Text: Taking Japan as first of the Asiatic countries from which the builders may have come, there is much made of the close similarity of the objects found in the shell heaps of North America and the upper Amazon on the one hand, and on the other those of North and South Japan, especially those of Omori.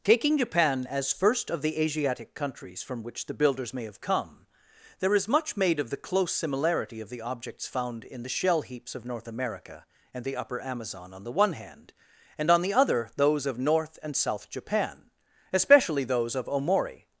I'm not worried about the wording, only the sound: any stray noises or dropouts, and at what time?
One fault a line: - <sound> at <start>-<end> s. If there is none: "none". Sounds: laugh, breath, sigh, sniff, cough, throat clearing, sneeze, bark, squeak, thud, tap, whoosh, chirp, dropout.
none